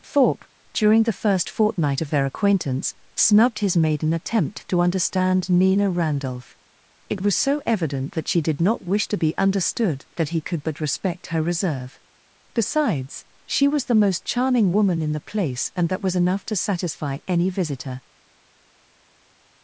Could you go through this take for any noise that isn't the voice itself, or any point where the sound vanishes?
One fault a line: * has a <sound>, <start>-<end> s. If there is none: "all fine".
all fine